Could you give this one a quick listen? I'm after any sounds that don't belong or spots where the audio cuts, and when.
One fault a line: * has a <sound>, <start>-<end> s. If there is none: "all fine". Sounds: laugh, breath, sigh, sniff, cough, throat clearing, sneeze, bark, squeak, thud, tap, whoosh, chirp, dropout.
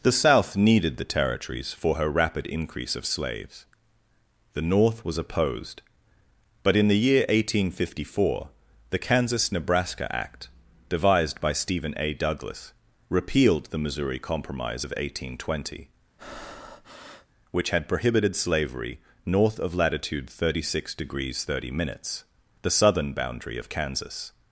* has a breath, 16.2-17.3 s